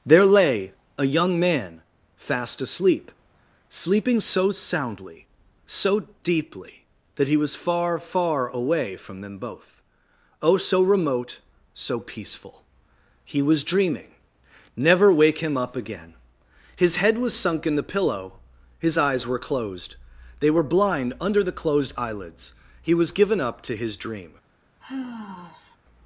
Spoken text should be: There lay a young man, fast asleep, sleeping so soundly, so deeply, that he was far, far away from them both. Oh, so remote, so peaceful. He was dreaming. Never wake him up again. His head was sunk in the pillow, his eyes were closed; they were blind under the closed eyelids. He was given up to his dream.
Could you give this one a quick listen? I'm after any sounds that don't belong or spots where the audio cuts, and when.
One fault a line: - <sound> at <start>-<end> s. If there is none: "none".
- sigh at 24.8-25.8 s